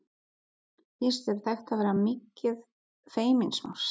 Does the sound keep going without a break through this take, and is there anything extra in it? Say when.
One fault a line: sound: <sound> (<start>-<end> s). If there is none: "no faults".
no faults